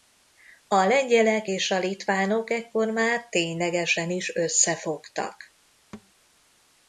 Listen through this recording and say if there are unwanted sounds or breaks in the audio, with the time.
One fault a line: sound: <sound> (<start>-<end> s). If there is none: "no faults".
sound: thud (5.9-6.1 s)